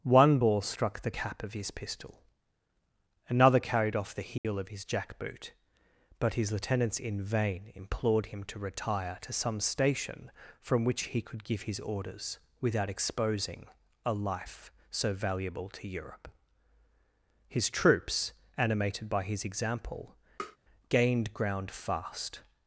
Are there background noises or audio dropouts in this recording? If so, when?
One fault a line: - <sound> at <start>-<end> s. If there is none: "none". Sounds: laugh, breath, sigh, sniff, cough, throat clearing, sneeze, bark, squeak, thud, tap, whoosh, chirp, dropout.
- dropout at 4.4-4.4 s
- tap at 20.4-20.6 s